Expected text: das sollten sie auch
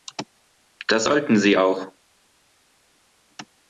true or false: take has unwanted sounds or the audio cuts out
false